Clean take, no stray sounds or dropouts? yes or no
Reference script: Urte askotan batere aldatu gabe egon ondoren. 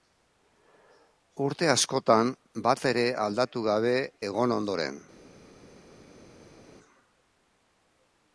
yes